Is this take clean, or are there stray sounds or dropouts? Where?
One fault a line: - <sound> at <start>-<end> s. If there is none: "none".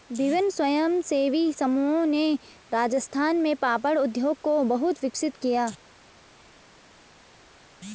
none